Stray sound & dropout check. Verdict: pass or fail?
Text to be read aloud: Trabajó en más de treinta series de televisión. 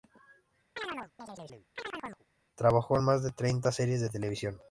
fail